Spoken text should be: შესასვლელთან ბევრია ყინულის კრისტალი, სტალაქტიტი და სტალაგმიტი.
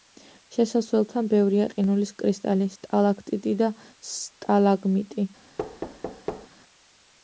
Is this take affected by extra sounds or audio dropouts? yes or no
yes